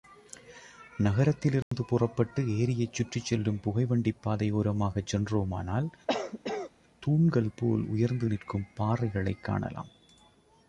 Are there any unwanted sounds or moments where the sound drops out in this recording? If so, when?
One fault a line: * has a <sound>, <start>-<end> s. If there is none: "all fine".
* has a dropout, 1.6-1.7 s
* has a cough, 6.1-6.7 s